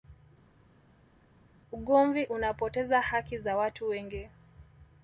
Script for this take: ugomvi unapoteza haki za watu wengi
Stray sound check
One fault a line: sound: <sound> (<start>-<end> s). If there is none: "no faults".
no faults